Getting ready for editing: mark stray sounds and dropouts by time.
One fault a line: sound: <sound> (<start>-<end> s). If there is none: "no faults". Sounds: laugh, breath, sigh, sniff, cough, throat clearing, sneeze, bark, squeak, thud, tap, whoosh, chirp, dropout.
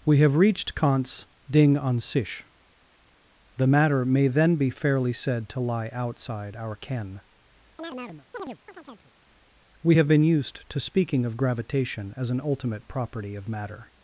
sound: chirp (7.8-9.1 s)